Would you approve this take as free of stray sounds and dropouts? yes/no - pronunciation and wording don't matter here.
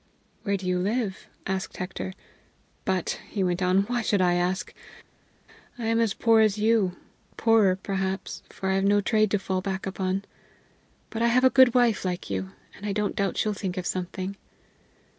yes